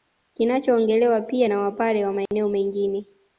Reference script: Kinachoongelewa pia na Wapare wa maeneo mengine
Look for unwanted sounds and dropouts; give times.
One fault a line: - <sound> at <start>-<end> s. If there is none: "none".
- dropout at 2.3-2.3 s